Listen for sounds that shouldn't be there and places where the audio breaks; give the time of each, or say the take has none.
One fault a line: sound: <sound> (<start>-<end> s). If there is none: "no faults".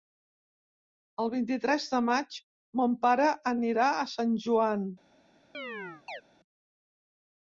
sound: chirp (5.5-6.2 s)